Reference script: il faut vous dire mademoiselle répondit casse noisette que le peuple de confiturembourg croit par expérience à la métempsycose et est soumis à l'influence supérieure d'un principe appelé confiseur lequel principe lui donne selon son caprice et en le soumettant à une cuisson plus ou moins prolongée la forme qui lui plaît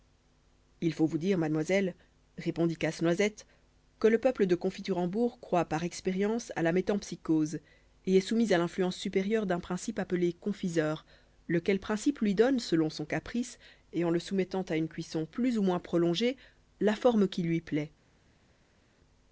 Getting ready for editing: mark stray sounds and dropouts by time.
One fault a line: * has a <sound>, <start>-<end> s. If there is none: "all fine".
all fine